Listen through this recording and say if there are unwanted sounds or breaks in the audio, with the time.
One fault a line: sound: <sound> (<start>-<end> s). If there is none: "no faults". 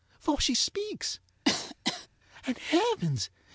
sound: cough (1.5-2.1 s)